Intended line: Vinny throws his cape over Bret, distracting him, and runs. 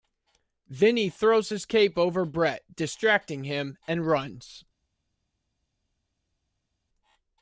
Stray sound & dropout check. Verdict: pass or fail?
pass